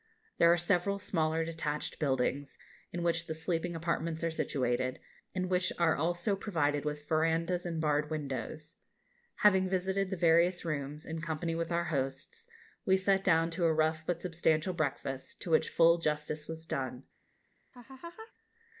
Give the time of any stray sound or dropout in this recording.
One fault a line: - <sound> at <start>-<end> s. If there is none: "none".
- laugh at 17.7-18.3 s